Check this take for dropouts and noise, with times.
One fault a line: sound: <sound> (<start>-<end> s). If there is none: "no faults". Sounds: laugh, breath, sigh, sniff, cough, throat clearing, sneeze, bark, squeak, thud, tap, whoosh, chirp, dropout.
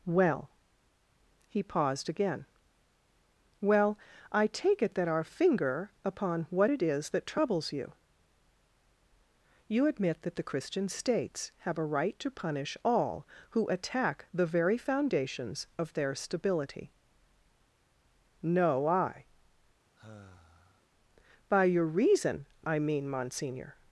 sound: sigh (20.0-20.8 s)